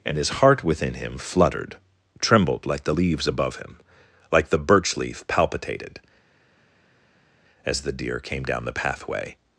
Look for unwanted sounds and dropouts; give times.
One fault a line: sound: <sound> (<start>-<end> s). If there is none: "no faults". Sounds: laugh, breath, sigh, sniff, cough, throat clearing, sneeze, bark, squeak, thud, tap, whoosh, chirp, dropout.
no faults